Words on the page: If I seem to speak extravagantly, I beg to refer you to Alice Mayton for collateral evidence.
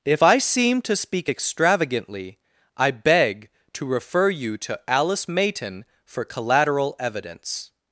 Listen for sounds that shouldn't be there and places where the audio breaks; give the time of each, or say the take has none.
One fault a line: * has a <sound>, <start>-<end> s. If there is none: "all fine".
all fine